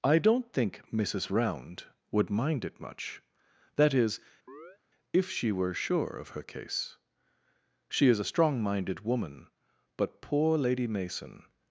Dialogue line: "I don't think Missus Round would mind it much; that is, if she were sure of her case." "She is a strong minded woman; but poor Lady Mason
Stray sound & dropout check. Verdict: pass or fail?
fail